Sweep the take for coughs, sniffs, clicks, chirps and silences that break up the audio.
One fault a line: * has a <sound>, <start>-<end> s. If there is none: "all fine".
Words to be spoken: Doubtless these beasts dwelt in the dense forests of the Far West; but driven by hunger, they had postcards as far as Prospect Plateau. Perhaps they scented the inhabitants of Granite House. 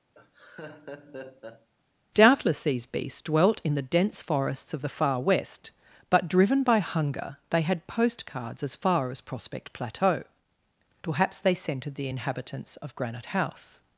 * has a laugh, 0.1-1.7 s